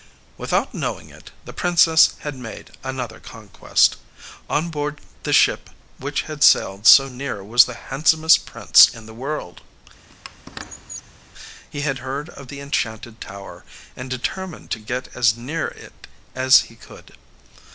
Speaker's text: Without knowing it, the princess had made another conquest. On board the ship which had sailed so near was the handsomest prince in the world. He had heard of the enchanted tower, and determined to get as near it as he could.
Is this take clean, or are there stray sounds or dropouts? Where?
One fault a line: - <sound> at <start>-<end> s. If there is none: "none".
- squeak at 10.1-11.2 s